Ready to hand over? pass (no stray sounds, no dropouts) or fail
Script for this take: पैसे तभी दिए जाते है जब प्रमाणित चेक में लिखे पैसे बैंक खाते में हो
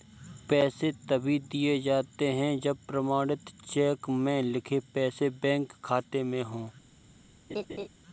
fail